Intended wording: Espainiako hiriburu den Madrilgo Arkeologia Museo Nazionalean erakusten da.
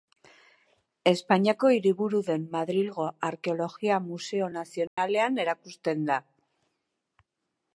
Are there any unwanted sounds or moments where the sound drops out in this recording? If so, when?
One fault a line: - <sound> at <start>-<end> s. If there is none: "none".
- dropout at 4.9-5.0 s